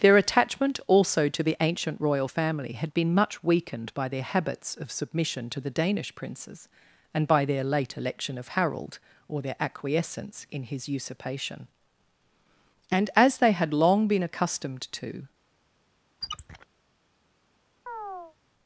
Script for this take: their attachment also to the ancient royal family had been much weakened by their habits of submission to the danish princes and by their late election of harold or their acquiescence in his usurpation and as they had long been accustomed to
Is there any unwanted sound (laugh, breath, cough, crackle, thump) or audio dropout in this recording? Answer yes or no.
yes